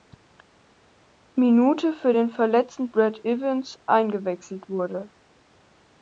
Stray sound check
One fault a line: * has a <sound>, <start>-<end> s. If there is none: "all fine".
all fine